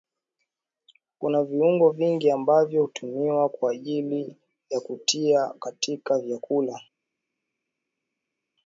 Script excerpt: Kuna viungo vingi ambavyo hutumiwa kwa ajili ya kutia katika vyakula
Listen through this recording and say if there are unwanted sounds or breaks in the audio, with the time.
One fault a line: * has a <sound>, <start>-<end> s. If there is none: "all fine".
all fine